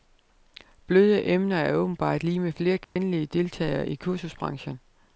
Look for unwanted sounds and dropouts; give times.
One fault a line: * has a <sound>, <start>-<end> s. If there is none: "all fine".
* has a dropout, 2.8-3.0 s